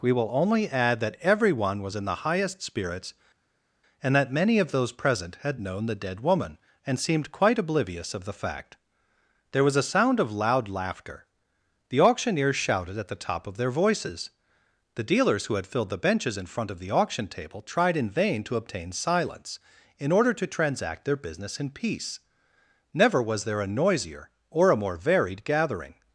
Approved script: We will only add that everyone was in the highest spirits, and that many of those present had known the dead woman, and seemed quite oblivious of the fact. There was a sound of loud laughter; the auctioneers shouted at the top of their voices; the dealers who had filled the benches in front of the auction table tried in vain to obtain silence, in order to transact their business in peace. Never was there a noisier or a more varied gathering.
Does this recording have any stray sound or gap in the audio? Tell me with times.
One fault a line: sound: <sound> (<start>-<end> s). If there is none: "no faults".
no faults